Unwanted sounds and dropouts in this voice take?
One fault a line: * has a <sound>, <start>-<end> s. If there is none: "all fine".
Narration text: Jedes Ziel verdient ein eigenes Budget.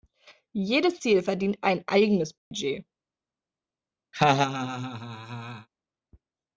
* has a dropout, 2.4-2.5 s
* has a laugh, 4.1-5.7 s